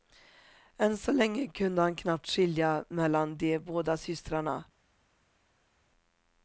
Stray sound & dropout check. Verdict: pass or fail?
pass